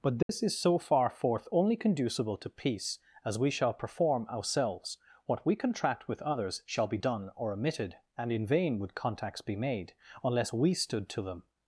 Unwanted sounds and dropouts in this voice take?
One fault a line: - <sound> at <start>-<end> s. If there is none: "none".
- dropout at 0.2-0.3 s